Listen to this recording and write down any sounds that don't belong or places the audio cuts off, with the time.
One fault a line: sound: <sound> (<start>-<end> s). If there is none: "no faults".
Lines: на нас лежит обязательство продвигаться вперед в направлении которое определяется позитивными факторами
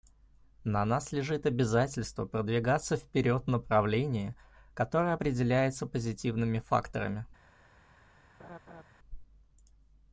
sound: laugh (8.4-8.8 s)